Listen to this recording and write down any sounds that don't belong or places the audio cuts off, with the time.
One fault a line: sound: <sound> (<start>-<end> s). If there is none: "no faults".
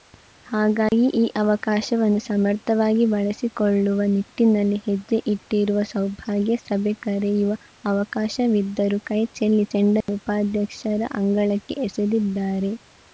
sound: dropout (0.9-0.9 s)
sound: dropout (10.0-10.1 s)